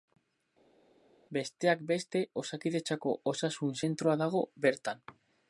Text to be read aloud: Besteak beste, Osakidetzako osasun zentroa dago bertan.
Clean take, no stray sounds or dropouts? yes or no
yes